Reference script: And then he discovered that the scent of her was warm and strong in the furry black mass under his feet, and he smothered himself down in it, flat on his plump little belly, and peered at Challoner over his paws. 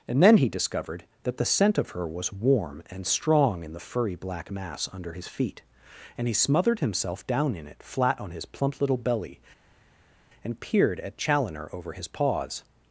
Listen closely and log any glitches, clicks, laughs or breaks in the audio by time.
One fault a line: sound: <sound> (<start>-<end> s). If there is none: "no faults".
no faults